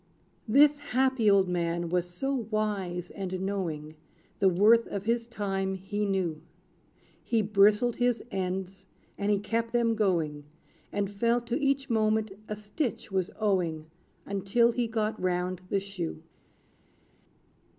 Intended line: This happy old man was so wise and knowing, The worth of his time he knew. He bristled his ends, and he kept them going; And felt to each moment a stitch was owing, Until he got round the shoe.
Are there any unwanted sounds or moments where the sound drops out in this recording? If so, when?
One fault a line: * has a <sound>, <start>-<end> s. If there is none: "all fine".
all fine